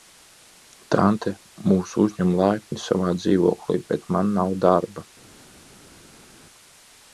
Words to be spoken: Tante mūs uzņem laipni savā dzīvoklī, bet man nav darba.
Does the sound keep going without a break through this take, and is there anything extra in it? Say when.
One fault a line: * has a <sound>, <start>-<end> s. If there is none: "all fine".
all fine